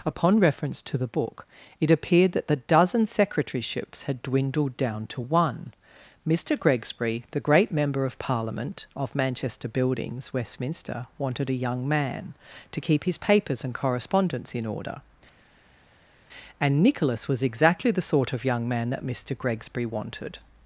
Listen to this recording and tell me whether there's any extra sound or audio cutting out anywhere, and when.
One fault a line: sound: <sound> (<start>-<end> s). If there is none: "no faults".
no faults